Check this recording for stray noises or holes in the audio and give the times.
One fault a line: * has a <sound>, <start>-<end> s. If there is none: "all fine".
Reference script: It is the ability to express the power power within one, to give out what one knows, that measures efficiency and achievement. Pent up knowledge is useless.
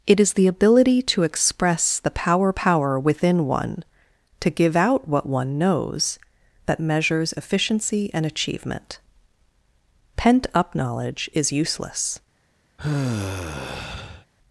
* has a sigh, 12.8-14.3 s